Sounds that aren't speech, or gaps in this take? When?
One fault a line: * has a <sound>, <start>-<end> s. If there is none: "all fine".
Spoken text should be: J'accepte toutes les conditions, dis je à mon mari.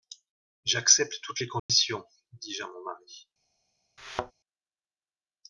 * has a dropout, 1.6-1.7 s
* has a thud, 4.0-4.3 s